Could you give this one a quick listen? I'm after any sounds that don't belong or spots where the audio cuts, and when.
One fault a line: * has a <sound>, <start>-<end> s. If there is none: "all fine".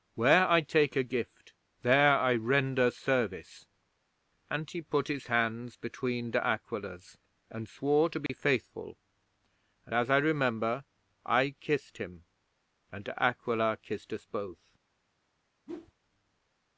* has a dropout, 8.3-8.3 s
* has a whoosh, 15.7-15.9 s